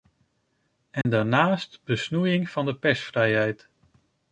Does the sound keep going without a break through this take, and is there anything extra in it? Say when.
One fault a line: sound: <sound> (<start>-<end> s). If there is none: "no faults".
sound: dropout (1.0-1.0 s)